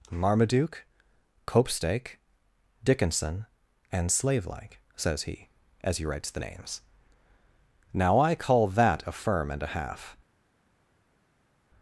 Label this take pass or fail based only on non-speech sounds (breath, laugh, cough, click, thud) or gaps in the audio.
pass